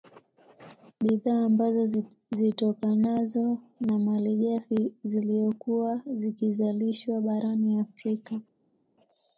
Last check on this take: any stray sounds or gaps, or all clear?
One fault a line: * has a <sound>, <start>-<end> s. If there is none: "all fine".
all fine